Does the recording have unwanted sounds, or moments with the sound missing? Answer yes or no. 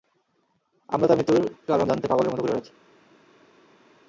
no